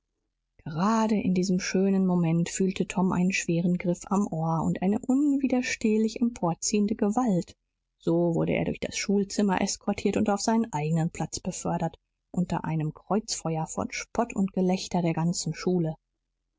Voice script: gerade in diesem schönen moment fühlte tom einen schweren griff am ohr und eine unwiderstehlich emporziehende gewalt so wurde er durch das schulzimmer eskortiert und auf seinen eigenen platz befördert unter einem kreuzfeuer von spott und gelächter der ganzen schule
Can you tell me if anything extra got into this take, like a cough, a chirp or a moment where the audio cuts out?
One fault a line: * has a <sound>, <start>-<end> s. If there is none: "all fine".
all fine